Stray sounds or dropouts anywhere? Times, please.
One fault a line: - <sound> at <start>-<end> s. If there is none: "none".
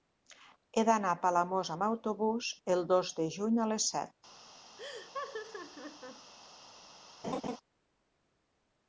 - laugh at 4.8-6.3 s
- laugh at 7.2-7.6 s